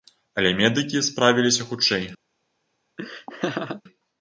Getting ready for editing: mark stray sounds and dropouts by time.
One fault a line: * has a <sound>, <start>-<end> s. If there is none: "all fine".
* has a laugh, 3.0-3.8 s